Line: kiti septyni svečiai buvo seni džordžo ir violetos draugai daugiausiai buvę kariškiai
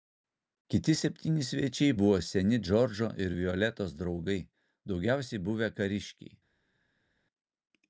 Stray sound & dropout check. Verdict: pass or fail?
pass